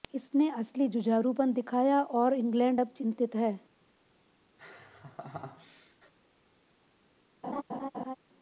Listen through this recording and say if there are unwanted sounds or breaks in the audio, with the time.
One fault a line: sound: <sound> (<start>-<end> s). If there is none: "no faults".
sound: laugh (4.6-6.1 s)
sound: laugh (7.4-8.2 s)